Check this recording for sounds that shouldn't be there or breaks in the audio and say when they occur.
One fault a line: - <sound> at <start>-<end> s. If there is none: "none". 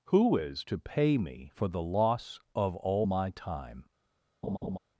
- laugh at 4.4-4.8 s